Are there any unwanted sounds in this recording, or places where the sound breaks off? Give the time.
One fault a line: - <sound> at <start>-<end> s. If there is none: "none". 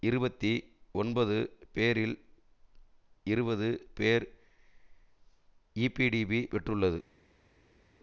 none